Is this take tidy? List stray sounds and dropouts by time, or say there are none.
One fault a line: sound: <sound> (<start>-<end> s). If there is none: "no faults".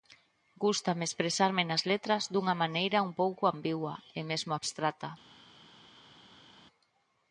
no faults